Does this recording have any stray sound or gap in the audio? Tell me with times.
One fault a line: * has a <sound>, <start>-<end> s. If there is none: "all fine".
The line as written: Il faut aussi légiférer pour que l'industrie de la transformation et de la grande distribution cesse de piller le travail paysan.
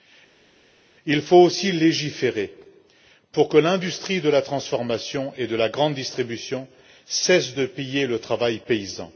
all fine